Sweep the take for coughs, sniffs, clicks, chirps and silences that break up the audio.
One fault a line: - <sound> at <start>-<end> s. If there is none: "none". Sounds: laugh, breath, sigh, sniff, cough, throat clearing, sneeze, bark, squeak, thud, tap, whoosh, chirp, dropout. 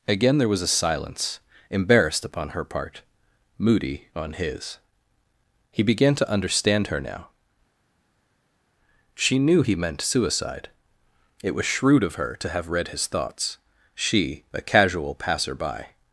none